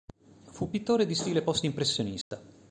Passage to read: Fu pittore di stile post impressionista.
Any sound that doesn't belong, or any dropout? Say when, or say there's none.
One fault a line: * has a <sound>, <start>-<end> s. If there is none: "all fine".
* has a dropout, 2.2-2.3 s